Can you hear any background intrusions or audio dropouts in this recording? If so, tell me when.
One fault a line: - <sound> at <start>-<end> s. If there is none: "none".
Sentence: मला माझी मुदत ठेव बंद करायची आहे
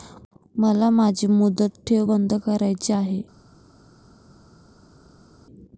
none